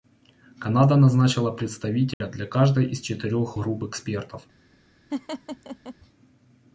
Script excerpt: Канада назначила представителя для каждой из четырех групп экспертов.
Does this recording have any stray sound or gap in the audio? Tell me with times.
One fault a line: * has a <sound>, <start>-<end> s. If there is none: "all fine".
* has a dropout, 2.1-2.2 s
* has a laugh, 5.1-5.9 s